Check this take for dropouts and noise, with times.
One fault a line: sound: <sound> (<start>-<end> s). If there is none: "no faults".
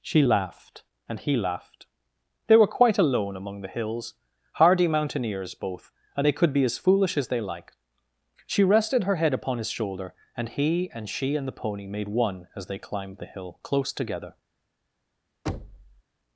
sound: thud (15.5-16.0 s)